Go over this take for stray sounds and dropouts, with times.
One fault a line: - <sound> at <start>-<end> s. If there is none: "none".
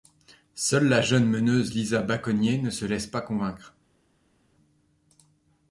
none